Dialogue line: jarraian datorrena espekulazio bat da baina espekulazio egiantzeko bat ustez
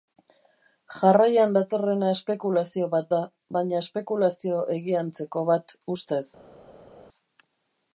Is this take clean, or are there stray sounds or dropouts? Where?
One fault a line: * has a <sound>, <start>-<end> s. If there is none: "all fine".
all fine